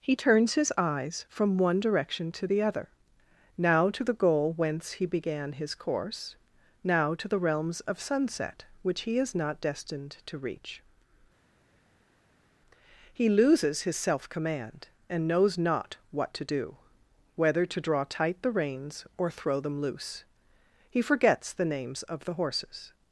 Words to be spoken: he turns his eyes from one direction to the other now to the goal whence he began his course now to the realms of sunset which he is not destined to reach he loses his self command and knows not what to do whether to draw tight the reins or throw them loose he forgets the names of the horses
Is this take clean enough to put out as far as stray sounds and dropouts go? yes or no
yes